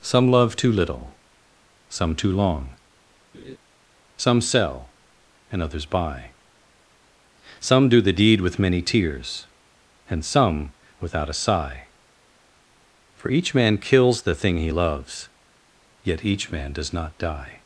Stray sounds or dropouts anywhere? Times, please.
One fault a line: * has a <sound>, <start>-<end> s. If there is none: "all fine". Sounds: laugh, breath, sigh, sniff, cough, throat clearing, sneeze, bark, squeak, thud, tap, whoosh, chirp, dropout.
* has a laugh, 3.3-3.6 s